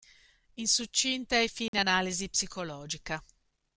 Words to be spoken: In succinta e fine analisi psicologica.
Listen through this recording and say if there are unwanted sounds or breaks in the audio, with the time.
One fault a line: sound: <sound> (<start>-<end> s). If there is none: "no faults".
sound: dropout (1.7-1.7 s)